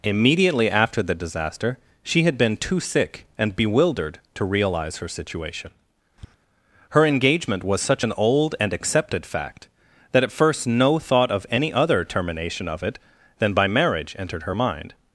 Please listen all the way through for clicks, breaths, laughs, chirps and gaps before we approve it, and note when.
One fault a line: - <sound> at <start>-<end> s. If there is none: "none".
- tap at 6.2-6.3 s